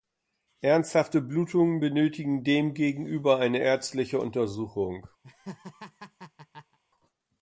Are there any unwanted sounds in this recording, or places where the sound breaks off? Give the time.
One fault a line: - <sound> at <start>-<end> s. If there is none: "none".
- laugh at 5.2-6.8 s